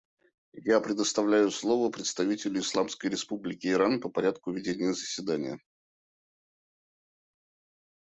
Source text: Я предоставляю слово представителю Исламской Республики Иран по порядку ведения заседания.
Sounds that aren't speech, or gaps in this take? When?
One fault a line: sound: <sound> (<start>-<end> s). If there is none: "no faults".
no faults